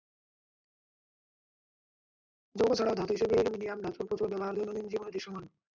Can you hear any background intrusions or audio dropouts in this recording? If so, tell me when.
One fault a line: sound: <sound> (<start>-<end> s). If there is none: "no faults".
no faults